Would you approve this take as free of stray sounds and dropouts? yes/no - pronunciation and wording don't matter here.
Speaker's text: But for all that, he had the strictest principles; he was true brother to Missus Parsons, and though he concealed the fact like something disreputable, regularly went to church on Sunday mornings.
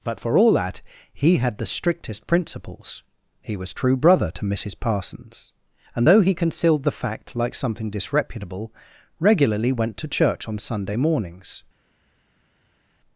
yes